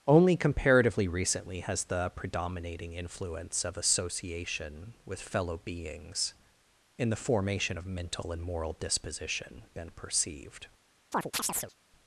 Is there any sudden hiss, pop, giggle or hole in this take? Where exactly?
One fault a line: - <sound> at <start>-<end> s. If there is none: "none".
- chirp at 11.1-11.7 s